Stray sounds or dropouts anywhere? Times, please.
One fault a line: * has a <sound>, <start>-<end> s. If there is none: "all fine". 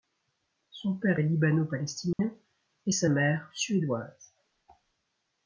* has a dropout, 2.1-2.2 s